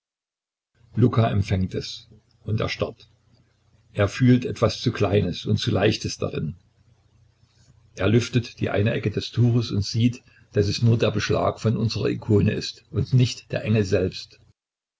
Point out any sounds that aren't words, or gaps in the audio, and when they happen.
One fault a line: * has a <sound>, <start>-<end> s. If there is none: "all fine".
all fine